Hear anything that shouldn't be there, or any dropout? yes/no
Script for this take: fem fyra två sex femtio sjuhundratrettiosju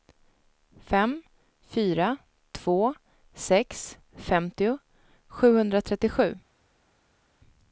no